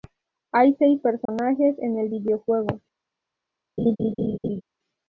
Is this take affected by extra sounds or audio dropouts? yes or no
yes